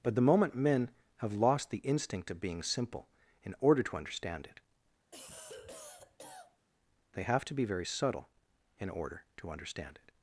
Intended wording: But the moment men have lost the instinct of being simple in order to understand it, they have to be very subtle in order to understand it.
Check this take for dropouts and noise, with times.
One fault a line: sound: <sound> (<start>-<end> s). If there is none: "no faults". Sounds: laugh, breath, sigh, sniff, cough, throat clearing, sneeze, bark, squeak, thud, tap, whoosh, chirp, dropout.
sound: cough (5.1-6.7 s)